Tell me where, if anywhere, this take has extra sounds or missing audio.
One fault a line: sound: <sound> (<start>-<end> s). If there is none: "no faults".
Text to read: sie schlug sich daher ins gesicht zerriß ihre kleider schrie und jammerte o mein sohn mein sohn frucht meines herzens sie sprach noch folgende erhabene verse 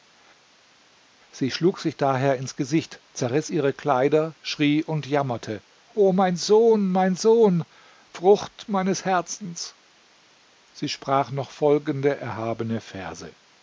no faults